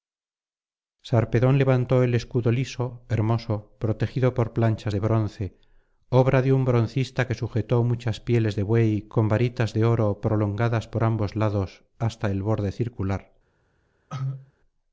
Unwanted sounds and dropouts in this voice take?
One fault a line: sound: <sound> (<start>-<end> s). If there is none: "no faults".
sound: cough (14.1-14.5 s)